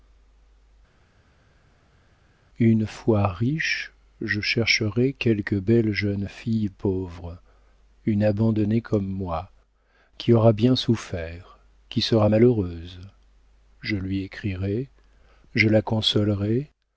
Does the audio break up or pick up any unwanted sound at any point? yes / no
no